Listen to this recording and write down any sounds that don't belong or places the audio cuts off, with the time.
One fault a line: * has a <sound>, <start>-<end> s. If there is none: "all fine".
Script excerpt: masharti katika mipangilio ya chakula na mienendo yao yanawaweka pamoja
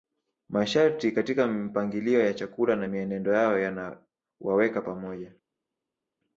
all fine